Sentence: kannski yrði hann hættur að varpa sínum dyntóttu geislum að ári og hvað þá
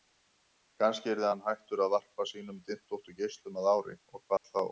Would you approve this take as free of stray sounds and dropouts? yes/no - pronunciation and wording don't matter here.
no